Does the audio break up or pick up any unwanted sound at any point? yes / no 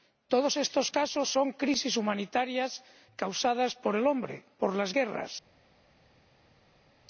no